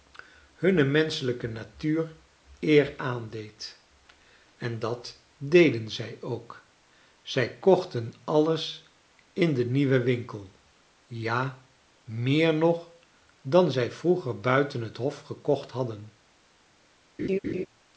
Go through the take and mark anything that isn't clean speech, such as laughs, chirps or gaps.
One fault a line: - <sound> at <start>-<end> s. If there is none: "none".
- laugh at 17.2-17.7 s